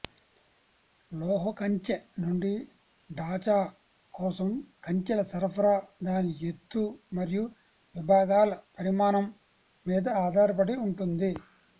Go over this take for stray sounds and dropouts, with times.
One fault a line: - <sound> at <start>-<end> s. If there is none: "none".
none